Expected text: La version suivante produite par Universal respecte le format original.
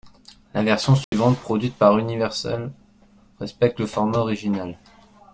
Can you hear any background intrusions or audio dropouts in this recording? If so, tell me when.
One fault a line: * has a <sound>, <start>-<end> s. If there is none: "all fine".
* has a dropout, 1.0-1.1 s